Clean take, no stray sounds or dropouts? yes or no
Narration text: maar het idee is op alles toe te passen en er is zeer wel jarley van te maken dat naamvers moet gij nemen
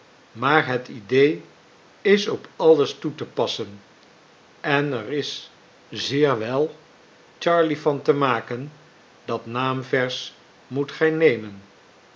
yes